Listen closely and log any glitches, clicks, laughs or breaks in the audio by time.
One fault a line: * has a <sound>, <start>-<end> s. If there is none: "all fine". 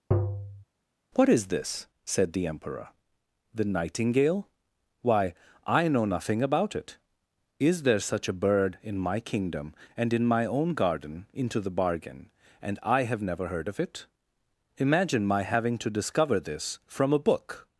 * has a tap, 0.1-0.6 s